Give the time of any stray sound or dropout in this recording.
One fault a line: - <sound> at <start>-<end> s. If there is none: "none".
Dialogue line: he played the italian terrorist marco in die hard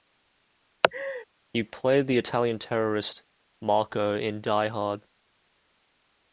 - laugh at 0.8-1.2 s